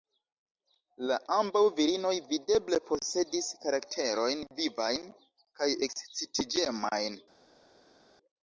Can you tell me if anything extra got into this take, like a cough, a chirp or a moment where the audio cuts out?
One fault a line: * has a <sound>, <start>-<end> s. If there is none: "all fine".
all fine